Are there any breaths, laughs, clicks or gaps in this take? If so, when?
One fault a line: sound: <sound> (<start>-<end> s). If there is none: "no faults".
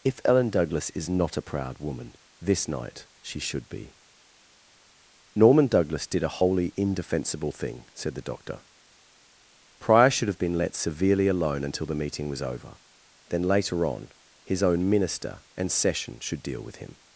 no faults